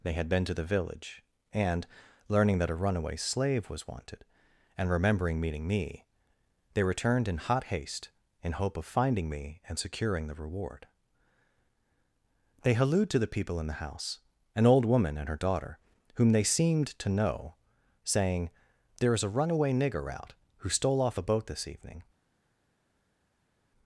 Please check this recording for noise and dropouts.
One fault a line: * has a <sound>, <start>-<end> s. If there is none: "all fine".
all fine